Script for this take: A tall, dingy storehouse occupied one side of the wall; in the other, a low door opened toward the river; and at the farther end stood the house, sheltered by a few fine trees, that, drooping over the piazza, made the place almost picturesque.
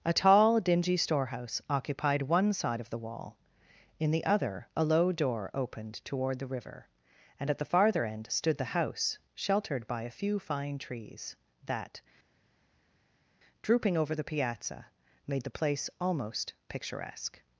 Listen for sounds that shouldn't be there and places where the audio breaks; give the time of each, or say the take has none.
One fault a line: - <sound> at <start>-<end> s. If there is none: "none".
none